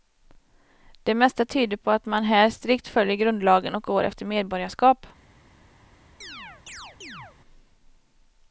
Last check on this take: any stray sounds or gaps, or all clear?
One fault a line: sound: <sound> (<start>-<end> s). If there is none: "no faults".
sound: chirp (6.2-7.4 s)